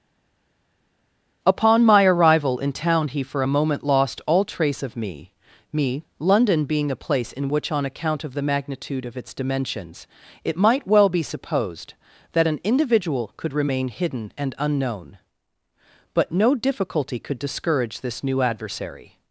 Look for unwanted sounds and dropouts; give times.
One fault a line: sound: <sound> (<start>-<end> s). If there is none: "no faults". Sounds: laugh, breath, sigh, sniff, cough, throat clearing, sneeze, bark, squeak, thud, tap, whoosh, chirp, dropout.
no faults